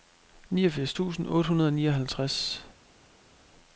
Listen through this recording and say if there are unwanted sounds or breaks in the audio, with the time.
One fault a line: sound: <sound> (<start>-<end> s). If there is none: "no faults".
no faults